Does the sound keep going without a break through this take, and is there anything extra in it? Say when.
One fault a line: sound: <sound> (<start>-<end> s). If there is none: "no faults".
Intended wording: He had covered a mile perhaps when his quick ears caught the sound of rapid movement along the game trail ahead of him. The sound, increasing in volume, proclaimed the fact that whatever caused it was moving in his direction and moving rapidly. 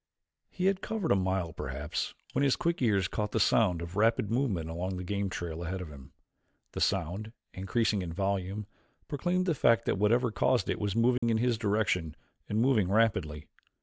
sound: dropout (11.2-11.2 s)